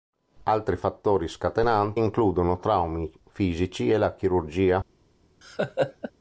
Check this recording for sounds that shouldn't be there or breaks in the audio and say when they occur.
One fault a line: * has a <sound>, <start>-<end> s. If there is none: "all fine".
* has a laugh, 5.4-6.1 s